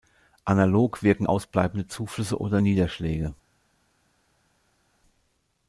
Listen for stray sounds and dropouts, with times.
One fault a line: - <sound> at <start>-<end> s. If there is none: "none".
none